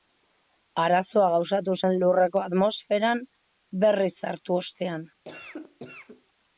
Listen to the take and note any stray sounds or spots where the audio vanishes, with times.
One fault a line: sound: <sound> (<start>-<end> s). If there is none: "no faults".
sound: cough (5.2-6.3 s)